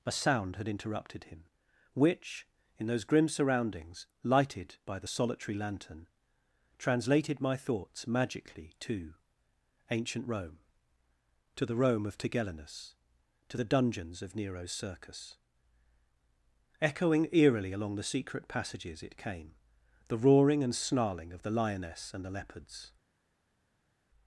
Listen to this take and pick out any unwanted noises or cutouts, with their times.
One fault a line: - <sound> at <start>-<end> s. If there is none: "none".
none